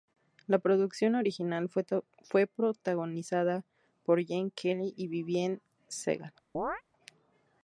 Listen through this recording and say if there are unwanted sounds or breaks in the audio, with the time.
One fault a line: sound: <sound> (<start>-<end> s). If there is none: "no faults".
sound: chirp (6.5-6.8 s)